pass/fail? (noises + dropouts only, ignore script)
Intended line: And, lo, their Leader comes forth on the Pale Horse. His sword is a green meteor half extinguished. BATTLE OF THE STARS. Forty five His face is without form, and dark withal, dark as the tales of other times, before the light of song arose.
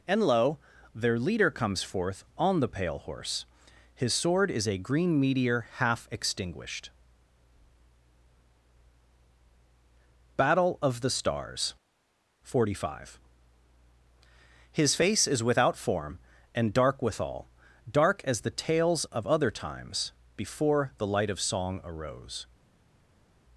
pass